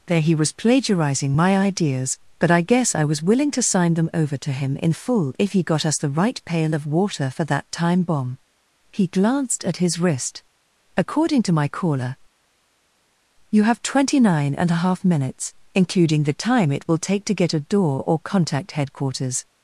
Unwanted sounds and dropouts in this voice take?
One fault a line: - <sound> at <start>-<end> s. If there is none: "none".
none